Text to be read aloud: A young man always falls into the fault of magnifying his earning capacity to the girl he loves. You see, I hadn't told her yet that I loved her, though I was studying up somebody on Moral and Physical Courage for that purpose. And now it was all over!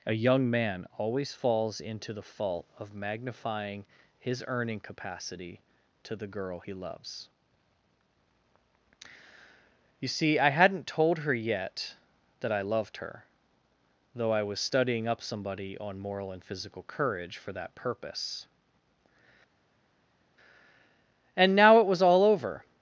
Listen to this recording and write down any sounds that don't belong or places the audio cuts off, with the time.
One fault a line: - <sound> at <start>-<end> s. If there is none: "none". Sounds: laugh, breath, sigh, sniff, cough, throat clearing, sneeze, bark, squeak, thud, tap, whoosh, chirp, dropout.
none